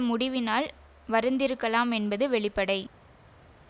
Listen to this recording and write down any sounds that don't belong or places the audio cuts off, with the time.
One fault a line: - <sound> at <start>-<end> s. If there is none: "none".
none